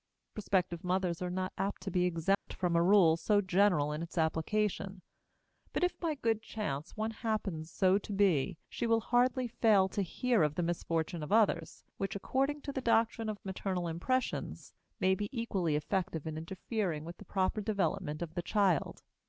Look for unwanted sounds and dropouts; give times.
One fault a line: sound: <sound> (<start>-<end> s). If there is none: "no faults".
sound: dropout (2.3-2.5 s)